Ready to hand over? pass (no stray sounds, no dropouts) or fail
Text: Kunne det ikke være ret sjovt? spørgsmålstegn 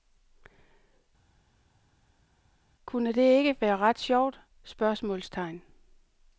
pass